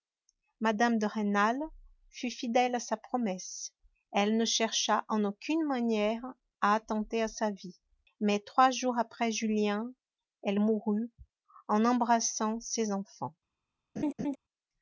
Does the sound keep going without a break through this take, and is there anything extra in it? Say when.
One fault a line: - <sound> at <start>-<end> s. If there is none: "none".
- laugh at 14.0-14.4 s